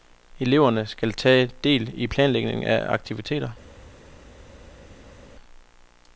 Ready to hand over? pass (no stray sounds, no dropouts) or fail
pass